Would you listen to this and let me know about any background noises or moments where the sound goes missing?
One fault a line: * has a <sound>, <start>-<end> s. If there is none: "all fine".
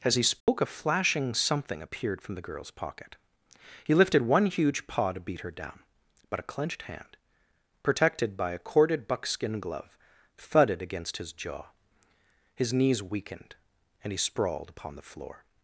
* has a dropout, 0.4-0.5 s